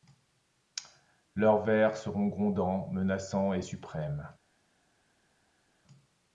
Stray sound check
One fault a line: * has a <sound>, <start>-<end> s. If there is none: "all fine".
all fine